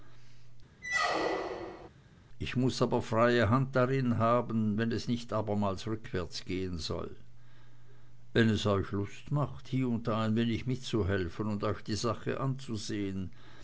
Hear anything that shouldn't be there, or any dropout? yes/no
yes